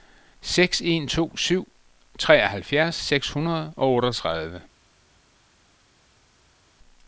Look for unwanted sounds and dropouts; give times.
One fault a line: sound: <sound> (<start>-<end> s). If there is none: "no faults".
no faults